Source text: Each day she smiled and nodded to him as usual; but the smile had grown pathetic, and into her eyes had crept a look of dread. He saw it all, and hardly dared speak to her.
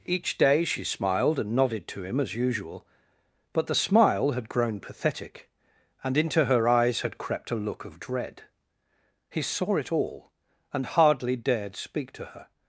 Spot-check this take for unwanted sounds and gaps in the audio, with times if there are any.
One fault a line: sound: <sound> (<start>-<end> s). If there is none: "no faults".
no faults